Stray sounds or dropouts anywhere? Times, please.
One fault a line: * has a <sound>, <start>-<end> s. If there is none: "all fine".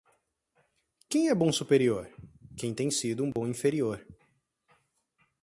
* has a dropout, 3.3-3.4 s